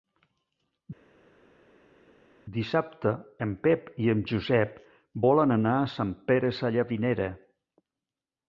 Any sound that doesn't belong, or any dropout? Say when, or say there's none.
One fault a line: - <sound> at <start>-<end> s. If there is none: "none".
none